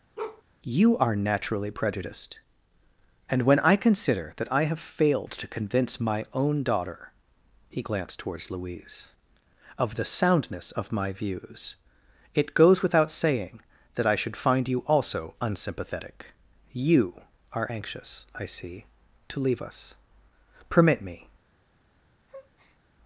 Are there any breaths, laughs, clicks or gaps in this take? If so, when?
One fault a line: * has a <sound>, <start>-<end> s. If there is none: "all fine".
* has a bark, 0.2-0.4 s
* has a breath, 22.3-22.8 s